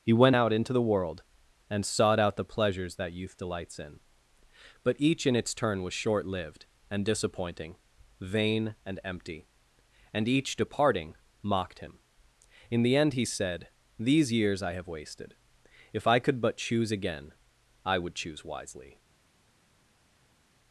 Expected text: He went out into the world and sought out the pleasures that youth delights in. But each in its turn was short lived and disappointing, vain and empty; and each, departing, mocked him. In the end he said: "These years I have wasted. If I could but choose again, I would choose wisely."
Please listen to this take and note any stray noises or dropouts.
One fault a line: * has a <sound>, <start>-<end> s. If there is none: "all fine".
all fine